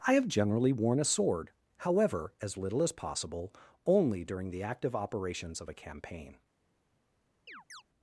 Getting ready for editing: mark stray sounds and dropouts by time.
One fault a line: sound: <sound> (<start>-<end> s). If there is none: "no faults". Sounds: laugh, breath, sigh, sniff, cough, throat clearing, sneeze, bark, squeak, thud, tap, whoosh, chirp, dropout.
sound: chirp (7.5-7.8 s)